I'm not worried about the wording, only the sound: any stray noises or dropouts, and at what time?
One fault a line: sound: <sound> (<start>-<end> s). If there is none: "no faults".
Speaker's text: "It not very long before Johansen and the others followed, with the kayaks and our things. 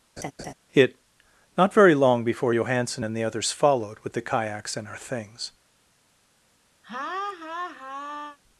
sound: laugh (0.2-0.5 s)
sound: laugh (6.8-8.4 s)